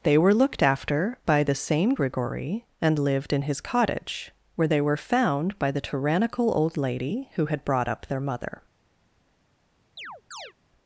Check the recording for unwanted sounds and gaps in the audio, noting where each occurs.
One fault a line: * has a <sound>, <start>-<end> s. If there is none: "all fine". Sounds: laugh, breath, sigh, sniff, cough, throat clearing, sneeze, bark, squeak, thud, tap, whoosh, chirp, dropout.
* has a chirp, 10.0-10.5 s